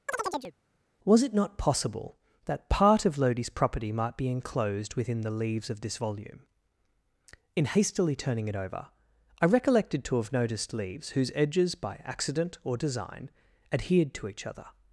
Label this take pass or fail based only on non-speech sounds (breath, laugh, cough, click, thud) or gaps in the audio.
fail